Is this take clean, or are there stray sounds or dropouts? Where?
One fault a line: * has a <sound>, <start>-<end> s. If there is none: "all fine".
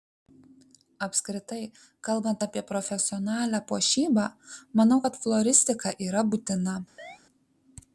* has a chirp, 7.0-7.2 s